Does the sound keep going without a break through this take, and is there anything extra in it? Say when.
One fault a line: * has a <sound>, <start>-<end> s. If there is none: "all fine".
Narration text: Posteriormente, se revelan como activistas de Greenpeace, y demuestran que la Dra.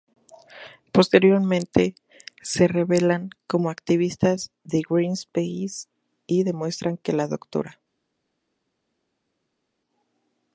all fine